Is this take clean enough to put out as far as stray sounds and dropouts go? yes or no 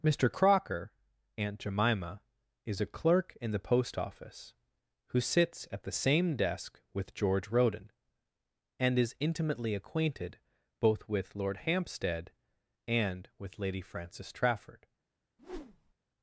no